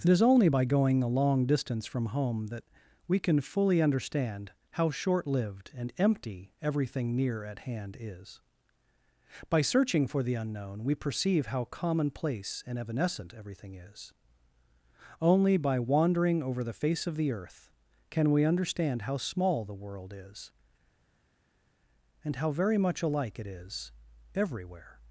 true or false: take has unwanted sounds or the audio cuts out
false